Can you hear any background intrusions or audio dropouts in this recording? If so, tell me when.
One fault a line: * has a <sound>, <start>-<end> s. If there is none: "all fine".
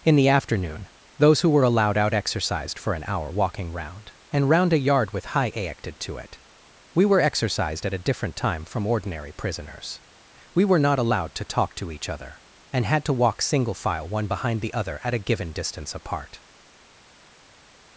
all fine